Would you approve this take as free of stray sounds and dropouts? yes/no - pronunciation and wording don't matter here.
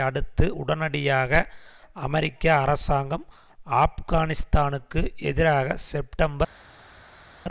yes